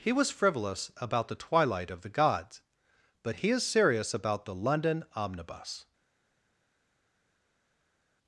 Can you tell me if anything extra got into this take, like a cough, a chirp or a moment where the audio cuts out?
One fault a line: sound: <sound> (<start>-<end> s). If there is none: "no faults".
no faults